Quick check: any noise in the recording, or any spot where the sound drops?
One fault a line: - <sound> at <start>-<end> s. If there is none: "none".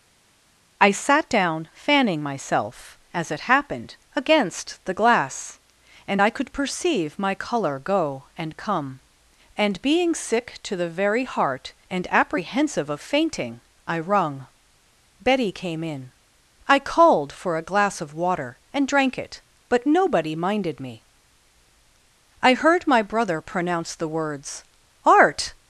none